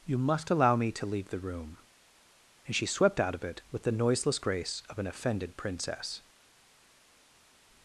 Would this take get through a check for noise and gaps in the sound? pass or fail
pass